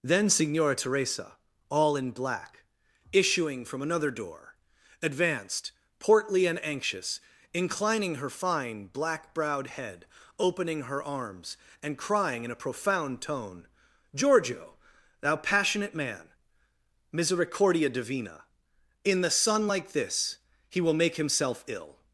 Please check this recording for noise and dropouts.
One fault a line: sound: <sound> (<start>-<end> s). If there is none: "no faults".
no faults